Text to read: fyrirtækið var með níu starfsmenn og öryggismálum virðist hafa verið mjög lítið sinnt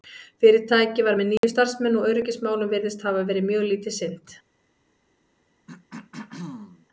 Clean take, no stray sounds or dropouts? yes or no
no